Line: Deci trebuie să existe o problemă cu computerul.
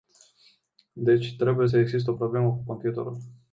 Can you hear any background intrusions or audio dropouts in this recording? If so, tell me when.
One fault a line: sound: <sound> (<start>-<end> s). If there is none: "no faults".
no faults